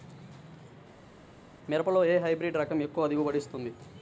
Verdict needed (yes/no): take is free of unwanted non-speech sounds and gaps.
yes